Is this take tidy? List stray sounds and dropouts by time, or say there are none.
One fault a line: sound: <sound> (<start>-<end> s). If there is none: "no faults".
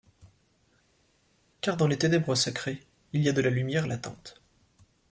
no faults